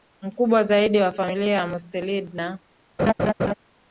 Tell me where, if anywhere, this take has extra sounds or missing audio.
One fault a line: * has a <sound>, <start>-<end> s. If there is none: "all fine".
* has a laugh, 3.0-3.5 s